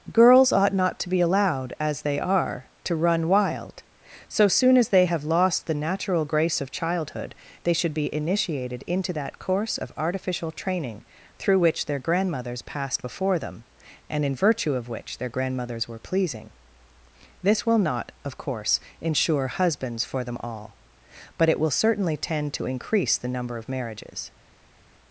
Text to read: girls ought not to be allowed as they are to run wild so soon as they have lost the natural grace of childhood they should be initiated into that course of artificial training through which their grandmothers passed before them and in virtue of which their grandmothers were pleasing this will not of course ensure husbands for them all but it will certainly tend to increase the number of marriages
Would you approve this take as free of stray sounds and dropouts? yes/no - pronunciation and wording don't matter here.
yes